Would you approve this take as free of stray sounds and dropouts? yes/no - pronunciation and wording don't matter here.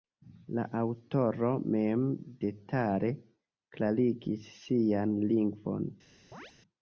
no